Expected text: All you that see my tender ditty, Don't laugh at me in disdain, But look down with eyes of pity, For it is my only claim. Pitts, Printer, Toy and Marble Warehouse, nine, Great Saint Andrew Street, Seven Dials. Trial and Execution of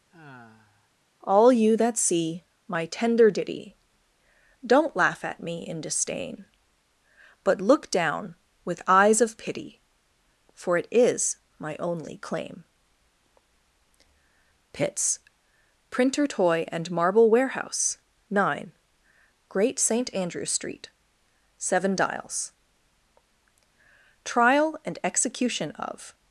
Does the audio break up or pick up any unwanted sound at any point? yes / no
yes